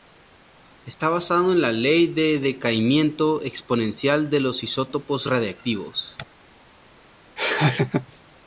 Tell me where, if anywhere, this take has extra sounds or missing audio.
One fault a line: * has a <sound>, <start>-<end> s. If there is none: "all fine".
* has a laugh, 7.4-8.1 s